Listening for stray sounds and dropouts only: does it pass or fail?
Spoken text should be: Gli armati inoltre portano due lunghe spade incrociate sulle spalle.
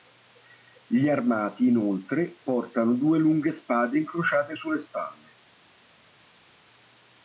pass